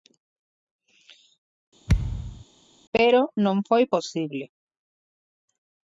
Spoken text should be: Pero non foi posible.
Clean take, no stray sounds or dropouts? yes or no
no